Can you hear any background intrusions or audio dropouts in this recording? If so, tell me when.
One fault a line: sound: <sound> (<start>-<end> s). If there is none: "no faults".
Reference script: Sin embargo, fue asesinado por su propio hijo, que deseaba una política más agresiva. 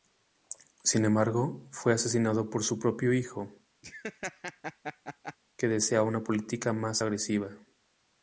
sound: laugh (3.8-5.4 s)